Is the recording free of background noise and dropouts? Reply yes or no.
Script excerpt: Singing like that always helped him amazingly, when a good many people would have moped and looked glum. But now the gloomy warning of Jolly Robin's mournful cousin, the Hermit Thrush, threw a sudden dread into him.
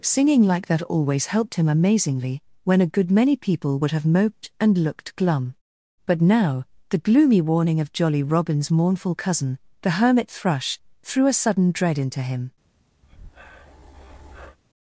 no